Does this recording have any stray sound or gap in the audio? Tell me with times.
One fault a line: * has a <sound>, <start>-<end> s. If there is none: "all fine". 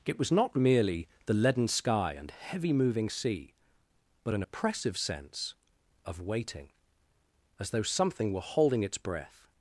all fine